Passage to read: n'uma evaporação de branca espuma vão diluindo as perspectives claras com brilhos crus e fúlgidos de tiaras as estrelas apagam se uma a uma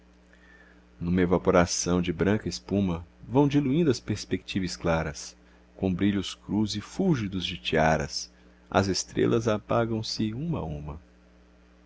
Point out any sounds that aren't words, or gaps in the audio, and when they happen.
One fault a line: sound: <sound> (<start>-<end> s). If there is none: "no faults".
no faults